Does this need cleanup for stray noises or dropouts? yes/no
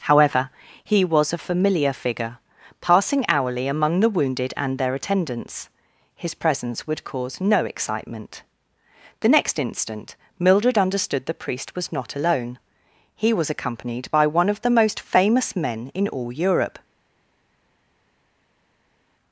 no